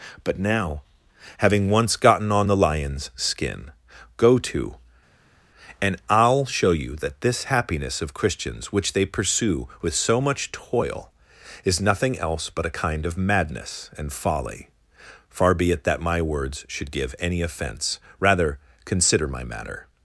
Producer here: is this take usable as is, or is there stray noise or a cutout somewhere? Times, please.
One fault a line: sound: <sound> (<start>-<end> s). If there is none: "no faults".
no faults